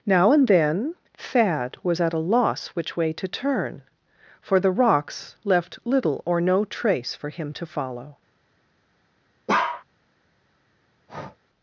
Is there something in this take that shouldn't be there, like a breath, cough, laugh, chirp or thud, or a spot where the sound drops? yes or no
yes